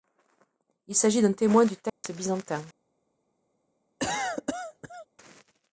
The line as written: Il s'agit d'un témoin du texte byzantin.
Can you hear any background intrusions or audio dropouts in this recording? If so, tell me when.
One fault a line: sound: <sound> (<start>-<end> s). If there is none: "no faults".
sound: dropout (1.9-2.0 s)
sound: cough (4.0-5.1 s)